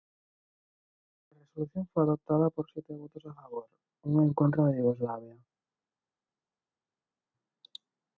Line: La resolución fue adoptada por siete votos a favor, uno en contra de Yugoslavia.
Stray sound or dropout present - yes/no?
no